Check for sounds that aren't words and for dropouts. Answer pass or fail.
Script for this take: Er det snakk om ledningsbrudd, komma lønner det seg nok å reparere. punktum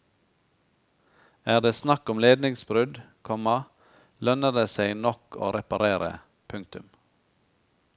pass